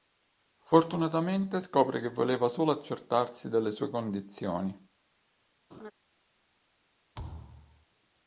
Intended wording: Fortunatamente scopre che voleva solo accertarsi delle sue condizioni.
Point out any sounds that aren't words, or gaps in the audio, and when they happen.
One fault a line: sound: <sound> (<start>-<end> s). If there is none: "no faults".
sound: laugh (5.7-5.9 s)
sound: thud (7.1-7.9 s)